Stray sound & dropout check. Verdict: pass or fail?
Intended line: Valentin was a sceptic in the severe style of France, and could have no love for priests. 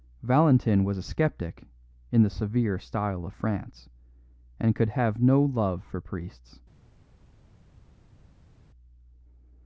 pass